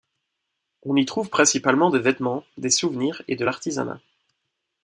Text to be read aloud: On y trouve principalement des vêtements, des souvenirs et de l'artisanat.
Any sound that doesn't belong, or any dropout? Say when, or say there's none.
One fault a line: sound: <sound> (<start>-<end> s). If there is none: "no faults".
no faults